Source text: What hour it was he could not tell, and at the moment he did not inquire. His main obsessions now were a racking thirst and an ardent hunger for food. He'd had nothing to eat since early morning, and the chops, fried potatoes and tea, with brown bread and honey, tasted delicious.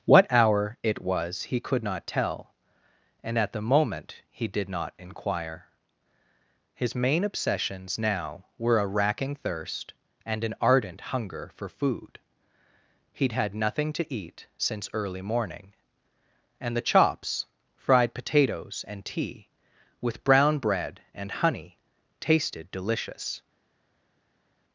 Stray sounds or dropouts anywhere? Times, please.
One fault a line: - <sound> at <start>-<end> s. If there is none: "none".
none